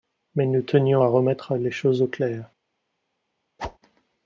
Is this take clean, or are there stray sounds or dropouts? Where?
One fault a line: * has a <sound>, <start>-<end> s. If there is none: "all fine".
* has a whoosh, 3.6-3.8 s